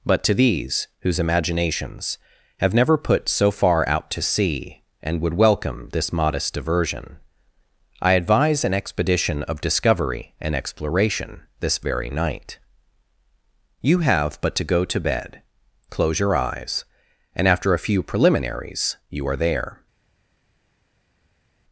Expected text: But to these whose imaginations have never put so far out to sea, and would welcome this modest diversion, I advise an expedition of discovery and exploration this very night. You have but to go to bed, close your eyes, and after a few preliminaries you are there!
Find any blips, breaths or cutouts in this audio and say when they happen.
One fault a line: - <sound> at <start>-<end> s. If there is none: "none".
none